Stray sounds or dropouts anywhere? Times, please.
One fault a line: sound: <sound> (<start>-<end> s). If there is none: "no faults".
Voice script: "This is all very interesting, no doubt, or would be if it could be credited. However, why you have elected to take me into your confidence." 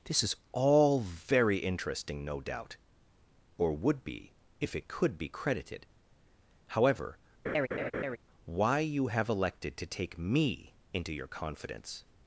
sound: laugh (7.4-8.2 s)